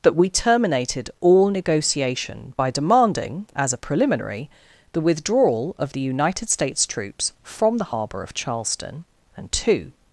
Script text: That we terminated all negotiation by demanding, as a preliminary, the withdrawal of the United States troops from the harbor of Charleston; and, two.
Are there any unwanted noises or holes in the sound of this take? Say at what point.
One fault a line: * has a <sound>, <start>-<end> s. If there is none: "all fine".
all fine